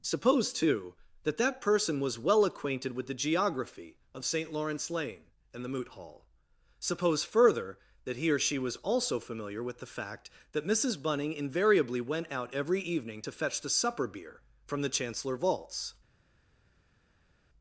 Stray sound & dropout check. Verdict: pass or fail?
pass